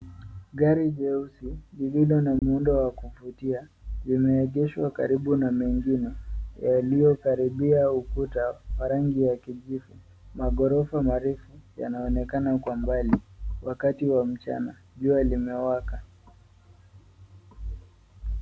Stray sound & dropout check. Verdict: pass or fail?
fail